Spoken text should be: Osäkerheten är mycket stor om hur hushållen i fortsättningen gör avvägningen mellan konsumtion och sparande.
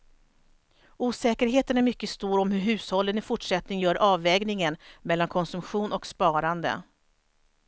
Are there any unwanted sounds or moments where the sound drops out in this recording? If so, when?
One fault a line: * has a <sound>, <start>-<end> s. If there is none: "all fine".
all fine